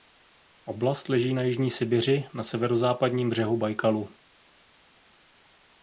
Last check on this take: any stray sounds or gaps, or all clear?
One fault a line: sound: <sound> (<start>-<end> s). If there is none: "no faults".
no faults